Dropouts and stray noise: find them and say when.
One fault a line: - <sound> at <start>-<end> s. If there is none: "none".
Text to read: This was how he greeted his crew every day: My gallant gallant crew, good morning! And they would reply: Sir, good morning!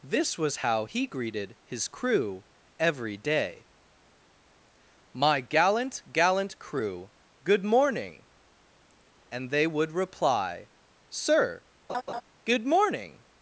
- laugh at 11.9-12.2 s